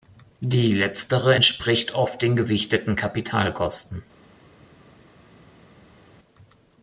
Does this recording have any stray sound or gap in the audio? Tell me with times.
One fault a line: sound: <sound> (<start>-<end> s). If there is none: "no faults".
no faults